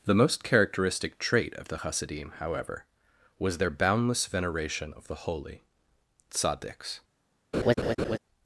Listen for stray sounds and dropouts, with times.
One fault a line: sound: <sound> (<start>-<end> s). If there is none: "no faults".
sound: laugh (7.5-8.2 s)